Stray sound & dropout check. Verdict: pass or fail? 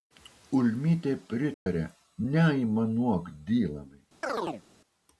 fail